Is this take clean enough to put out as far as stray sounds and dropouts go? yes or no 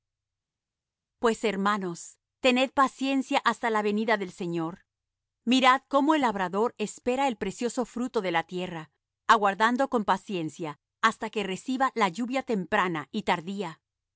yes